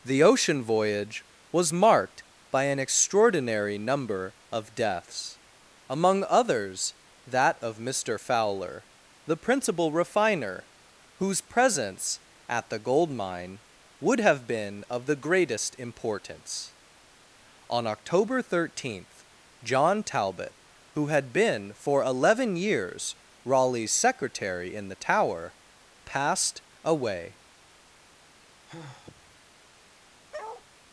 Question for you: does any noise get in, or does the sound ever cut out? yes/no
yes